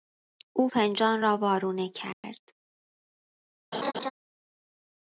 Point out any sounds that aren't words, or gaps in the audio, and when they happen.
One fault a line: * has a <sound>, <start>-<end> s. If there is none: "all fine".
* has a dropout, 2.1-2.2 s
* has a laugh, 3.7-4.1 s